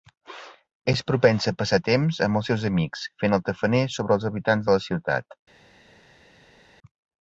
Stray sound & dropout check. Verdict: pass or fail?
pass